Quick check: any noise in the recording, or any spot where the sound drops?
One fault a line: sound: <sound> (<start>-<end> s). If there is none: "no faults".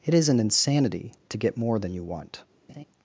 sound: laugh (2.7-2.8 s)